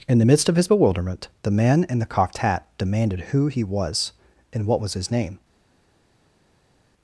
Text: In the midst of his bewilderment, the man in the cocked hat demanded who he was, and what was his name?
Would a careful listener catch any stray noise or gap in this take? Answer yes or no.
no